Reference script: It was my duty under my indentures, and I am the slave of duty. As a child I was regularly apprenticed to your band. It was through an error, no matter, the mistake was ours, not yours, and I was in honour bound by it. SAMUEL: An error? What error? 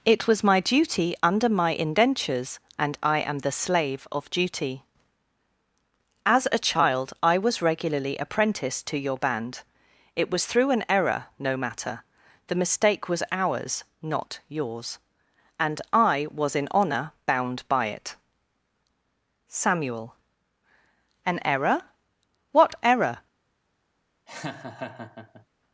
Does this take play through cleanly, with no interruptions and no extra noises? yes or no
no